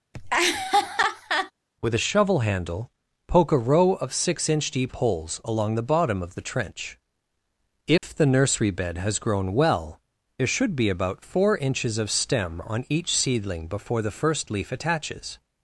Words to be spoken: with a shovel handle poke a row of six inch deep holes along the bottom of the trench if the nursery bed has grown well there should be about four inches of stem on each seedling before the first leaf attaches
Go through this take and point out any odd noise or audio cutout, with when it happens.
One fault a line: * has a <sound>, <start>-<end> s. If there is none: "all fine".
* has a laugh, 0.1-1.5 s
* has a dropout, 8.0-8.0 s